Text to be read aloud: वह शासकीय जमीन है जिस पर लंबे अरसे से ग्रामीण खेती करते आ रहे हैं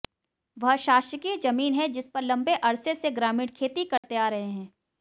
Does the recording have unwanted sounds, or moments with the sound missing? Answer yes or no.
yes